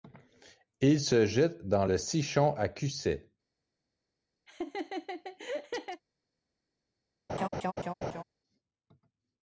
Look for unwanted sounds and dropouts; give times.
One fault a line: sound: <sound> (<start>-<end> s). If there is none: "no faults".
sound: laugh (4.5-6.0 s)
sound: laugh (7.3-8.2 s)